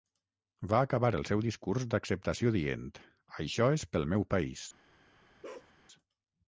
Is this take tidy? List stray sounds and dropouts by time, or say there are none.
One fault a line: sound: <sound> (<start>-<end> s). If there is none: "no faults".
sound: bark (5.4-5.7 s)